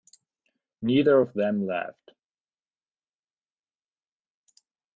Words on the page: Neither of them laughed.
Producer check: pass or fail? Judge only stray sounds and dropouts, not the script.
pass